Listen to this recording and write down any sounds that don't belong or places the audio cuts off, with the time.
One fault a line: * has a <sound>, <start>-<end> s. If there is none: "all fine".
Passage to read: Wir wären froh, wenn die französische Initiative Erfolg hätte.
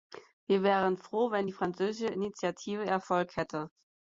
all fine